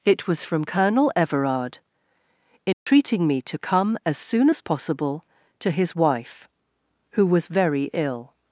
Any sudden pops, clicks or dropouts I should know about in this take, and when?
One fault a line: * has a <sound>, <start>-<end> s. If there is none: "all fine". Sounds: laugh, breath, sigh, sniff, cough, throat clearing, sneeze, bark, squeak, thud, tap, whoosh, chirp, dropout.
* has a dropout, 2.7-2.9 s